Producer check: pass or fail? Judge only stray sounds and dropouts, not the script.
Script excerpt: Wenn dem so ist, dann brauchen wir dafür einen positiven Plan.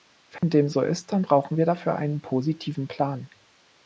fail